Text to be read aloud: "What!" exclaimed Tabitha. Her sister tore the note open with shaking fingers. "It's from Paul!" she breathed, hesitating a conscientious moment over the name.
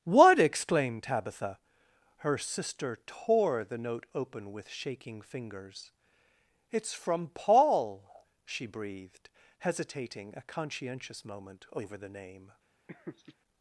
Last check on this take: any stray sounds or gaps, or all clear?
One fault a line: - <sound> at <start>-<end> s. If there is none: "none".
- laugh at 12.9-13.4 s